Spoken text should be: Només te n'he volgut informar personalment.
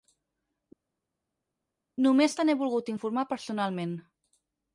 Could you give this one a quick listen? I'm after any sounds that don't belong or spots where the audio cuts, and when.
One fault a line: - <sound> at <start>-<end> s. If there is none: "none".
none